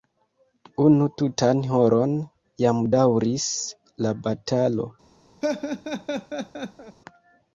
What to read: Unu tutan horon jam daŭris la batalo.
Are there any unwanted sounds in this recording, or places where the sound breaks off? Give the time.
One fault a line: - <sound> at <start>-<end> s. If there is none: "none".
- laugh at 5.4-7.0 s